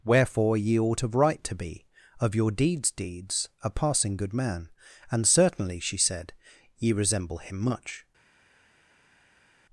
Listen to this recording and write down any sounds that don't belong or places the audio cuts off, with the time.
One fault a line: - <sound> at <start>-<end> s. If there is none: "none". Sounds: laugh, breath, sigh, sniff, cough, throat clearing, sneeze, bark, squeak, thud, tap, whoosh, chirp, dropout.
none